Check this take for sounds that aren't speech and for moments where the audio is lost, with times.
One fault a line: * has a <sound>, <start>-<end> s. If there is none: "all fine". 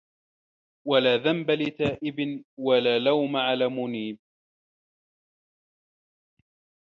all fine